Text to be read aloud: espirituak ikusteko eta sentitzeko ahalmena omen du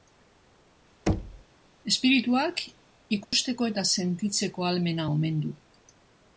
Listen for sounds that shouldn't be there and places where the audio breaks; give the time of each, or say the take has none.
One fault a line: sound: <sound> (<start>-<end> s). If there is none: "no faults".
sound: thud (1.1-1.4 s)
sound: dropout (3.2-3.3 s)